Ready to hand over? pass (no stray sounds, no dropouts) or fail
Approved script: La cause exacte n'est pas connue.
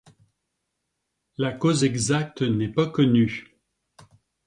pass